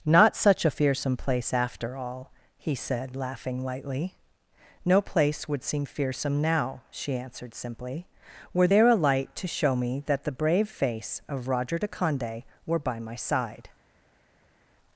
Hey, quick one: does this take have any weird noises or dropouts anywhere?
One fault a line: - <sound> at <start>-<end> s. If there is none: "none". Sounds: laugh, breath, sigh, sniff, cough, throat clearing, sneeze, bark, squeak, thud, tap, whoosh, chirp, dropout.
none